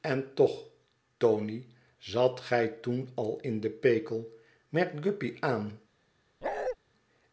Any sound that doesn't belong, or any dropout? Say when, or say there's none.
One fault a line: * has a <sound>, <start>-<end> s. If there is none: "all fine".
* has a bark, 6.4-6.8 s